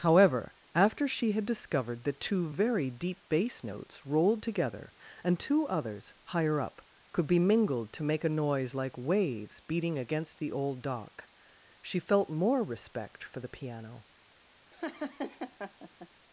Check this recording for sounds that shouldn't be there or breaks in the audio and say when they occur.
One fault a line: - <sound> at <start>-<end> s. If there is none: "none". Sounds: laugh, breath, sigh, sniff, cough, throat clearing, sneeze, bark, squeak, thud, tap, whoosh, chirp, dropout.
- laugh at 14.7-16.1 s